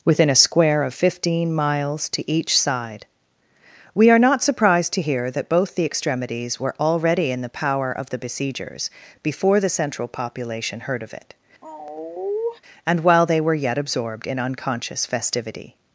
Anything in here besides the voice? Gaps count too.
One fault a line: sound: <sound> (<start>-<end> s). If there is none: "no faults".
sound: sigh (11.6-12.6 s)